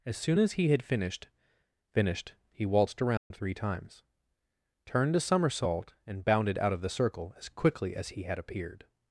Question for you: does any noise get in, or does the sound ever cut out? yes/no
yes